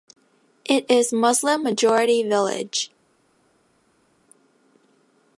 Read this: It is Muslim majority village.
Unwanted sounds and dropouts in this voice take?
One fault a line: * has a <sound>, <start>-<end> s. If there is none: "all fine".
all fine